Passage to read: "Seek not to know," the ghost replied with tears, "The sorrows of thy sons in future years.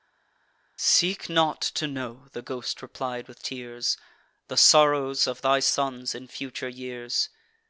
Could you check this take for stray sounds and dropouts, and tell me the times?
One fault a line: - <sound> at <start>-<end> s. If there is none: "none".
none